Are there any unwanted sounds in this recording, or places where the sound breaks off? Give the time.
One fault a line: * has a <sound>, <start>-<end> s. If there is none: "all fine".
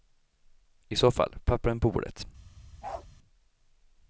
* has a bark, 2.8-3.1 s